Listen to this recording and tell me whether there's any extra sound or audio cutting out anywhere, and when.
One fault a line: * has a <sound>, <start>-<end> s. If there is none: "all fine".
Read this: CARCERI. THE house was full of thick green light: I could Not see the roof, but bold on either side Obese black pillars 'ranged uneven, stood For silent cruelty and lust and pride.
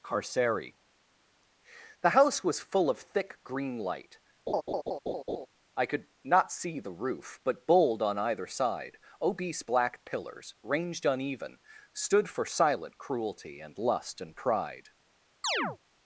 * has a laugh, 4.5-5.5 s
* has a chirp, 15.4-15.8 s